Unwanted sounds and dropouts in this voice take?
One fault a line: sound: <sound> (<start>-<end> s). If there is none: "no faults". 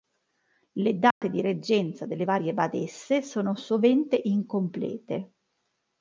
sound: dropout (1.1-1.2 s)